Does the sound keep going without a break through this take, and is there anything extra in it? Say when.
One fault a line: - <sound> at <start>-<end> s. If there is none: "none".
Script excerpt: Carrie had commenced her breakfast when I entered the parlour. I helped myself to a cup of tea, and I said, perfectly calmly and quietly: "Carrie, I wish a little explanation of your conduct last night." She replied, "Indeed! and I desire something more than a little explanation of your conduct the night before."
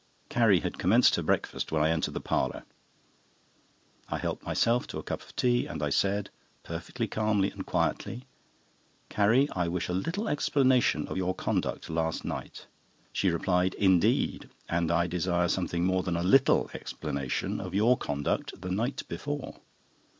none